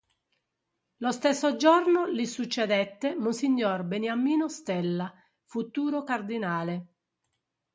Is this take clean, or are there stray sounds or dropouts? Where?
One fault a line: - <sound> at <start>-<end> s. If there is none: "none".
none